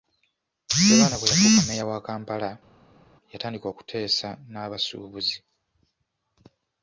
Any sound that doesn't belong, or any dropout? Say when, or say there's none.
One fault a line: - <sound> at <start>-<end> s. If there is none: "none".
none